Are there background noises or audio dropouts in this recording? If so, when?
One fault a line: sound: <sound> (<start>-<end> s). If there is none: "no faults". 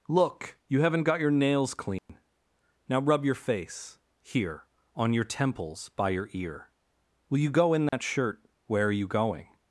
sound: dropout (2.0-2.1 s)
sound: dropout (7.9-7.9 s)